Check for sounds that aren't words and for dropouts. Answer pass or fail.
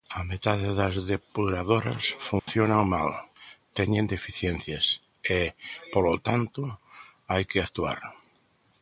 fail